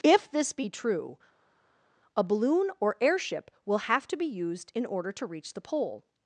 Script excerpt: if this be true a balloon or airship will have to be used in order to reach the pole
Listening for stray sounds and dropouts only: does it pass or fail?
pass